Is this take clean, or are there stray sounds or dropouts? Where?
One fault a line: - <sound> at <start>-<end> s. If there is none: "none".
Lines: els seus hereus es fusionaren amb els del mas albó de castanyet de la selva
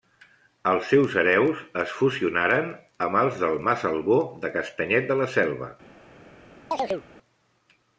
- chirp at 6.7-7.1 s